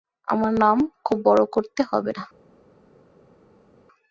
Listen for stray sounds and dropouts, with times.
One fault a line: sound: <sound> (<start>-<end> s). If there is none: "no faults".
no faults